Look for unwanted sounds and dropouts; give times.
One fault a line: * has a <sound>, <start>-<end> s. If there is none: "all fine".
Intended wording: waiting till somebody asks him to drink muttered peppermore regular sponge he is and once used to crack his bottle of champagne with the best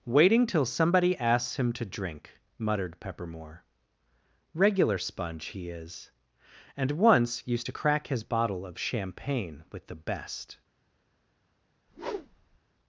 * has a whoosh, 11.9-12.6 s